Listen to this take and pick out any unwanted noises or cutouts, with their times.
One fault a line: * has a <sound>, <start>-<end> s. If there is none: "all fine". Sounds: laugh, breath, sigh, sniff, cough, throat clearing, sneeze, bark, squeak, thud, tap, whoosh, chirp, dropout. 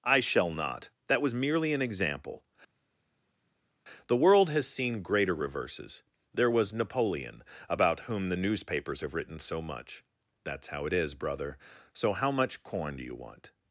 all fine